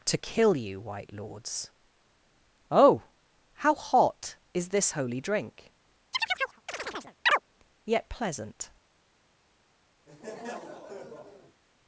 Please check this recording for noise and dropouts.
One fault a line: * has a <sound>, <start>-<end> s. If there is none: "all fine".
* has a chirp, 6.1-7.4 s
* has a laugh, 10.1-11.6 s